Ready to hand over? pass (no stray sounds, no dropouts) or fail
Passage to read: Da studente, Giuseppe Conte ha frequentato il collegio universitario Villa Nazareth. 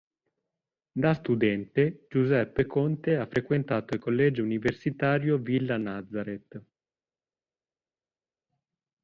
pass